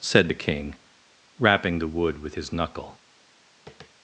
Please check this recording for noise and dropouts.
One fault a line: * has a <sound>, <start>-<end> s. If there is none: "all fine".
* has a tap, 3.7-3.9 s